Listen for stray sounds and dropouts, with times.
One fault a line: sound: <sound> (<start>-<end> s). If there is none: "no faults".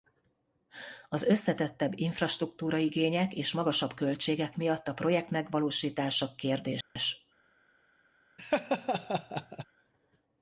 sound: dropout (6.8-7.0 s)
sound: laugh (8.4-9.7 s)